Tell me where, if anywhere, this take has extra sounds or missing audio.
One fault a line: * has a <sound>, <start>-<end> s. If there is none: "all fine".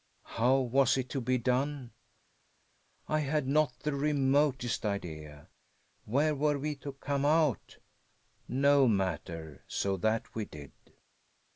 all fine